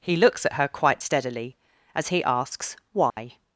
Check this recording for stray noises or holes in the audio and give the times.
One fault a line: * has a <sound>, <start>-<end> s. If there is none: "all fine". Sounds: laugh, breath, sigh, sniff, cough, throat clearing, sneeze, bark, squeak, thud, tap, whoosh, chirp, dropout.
* has a dropout, 3.1-3.2 s